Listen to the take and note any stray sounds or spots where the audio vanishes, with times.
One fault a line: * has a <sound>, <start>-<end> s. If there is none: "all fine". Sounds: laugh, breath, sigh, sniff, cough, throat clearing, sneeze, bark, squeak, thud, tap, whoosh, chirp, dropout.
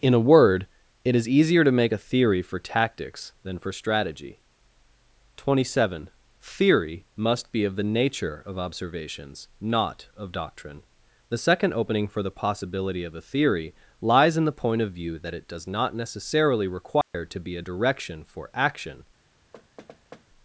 * has a dropout, 17.0-17.1 s
* has a thud, 19.5-20.3 s